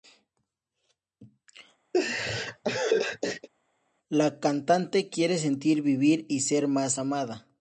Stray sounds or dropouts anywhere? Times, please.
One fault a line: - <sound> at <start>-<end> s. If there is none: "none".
- laugh at 1.9-3.5 s